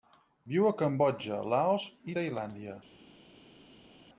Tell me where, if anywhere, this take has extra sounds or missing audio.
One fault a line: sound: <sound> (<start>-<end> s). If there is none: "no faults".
no faults